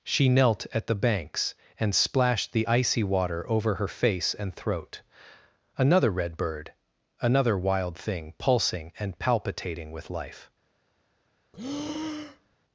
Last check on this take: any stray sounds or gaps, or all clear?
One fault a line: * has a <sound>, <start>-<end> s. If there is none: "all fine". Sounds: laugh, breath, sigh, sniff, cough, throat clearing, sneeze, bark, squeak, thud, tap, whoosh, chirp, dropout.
* has a breath, 11.5-12.6 s